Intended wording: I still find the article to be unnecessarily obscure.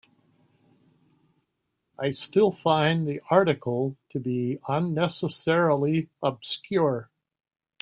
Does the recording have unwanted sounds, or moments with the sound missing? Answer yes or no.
no